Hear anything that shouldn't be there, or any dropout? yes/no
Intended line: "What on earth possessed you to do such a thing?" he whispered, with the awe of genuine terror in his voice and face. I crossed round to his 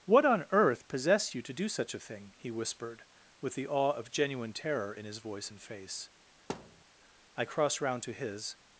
yes